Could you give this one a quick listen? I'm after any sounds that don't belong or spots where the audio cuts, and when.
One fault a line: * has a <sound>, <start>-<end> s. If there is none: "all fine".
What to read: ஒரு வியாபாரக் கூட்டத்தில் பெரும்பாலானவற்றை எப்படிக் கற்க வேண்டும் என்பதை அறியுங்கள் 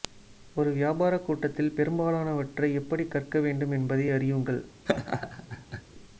* has a laugh, 4.9-5.8 s